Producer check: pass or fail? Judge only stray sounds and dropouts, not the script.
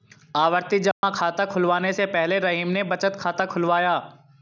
fail